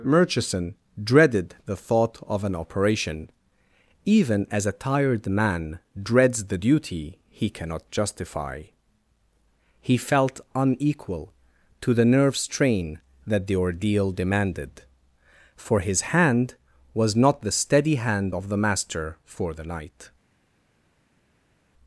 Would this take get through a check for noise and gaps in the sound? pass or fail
pass